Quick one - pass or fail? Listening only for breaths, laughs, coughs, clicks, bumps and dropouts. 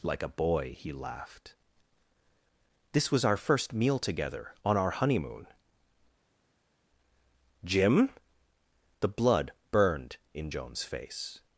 pass